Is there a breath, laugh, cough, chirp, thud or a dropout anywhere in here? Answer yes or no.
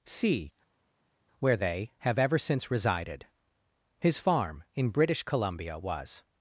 no